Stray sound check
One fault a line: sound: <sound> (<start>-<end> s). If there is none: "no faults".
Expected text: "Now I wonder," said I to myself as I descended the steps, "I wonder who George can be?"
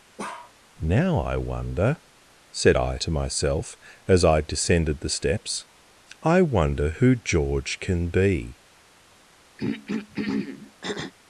sound: bark (0.2-0.5 s)
sound: throat clearing (9.6-11.1 s)